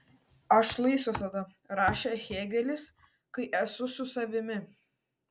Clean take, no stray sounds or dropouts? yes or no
yes